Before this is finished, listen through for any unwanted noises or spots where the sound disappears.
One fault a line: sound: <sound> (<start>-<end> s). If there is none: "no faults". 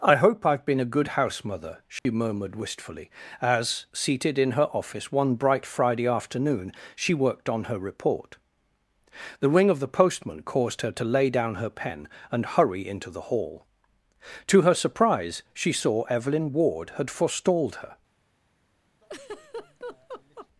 sound: dropout (2.0-2.1 s)
sound: laugh (19.0-20.5 s)